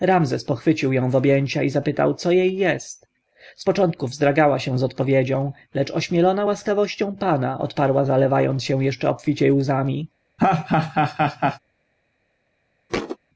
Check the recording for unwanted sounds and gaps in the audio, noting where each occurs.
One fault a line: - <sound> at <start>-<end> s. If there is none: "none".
- laugh at 10.4-11.6 s
- thud at 12.9-13.2 s